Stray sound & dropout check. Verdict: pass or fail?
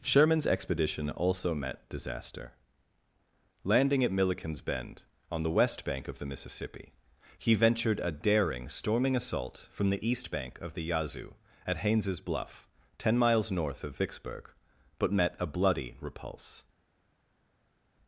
pass